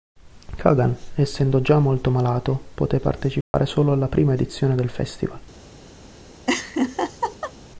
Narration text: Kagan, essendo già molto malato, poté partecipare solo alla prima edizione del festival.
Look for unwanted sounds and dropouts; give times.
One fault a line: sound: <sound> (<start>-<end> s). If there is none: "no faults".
sound: dropout (3.4-3.5 s)
sound: laugh (6.5-7.5 s)